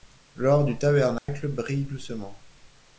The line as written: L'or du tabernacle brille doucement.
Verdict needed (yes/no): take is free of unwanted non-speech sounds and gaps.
no